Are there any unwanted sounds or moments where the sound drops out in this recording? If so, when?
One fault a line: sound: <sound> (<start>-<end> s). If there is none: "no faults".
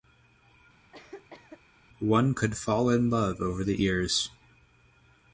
sound: cough (0.9-1.6 s)